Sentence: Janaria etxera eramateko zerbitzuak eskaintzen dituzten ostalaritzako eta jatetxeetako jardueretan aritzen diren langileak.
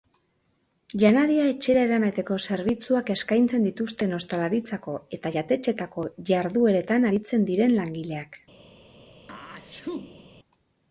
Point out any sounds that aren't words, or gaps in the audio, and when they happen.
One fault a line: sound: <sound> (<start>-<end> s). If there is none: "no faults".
sound: sneeze (9.3-10.3 s)